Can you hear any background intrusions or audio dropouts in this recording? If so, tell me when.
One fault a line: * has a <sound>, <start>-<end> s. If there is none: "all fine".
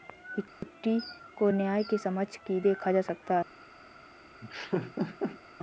* has a dropout, 0.5-0.6 s
* has a laugh, 4.4-5.4 s